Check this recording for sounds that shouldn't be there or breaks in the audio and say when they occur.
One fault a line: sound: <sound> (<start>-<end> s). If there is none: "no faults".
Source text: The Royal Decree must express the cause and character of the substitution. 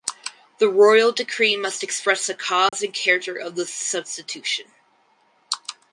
sound: dropout (2.7-2.7 s)